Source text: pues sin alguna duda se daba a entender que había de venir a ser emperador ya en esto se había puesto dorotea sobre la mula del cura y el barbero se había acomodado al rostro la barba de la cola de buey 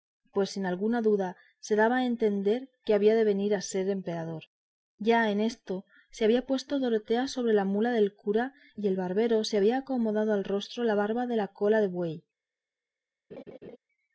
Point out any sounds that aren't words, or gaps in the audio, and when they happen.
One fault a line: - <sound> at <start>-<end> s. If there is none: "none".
- laugh at 13.3-13.8 s